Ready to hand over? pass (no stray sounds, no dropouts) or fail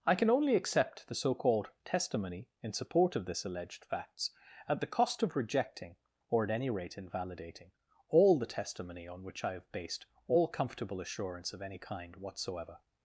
pass